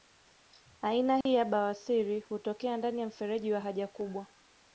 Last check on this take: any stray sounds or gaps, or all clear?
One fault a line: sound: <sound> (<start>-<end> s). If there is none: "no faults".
sound: dropout (1.2-1.3 s)